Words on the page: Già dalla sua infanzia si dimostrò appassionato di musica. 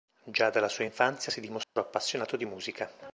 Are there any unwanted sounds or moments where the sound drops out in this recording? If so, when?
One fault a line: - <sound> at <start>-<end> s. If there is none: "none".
- dropout at 1.6-1.8 s